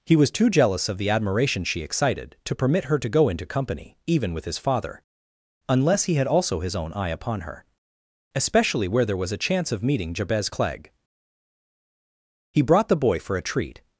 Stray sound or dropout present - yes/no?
no